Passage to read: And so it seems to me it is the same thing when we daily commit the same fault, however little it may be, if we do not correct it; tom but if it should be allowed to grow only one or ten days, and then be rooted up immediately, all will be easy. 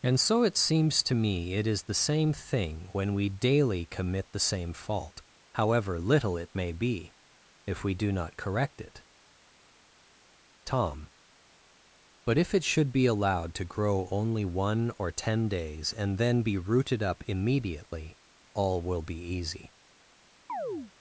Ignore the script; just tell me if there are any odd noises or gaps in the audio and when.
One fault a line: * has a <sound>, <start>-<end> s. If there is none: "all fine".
* has a chirp, 20.5-20.9 s